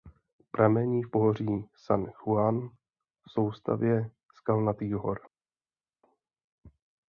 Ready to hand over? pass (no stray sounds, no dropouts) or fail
pass